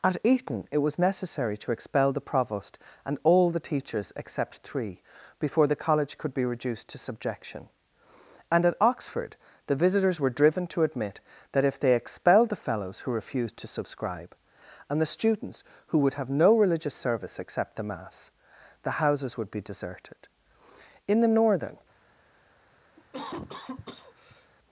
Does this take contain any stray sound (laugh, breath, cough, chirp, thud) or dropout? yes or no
yes